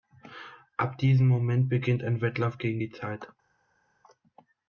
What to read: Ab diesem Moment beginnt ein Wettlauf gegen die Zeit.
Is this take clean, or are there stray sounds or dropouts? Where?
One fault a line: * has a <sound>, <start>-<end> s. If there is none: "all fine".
all fine